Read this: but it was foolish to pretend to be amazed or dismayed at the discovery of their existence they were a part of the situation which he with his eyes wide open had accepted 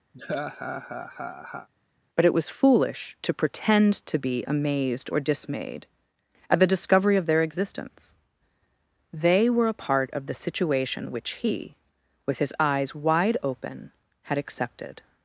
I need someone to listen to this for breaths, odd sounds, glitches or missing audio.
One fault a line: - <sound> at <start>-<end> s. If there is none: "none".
- laugh at 0.1-1.7 s